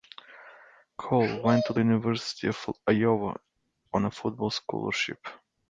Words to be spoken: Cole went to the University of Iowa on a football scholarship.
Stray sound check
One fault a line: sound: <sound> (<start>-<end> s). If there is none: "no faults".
no faults